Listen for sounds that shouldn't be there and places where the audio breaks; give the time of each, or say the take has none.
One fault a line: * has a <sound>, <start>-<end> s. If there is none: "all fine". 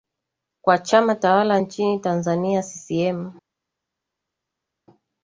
all fine